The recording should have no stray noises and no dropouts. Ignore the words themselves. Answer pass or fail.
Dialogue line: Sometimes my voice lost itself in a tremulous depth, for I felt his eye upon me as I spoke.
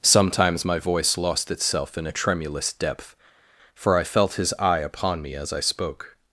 pass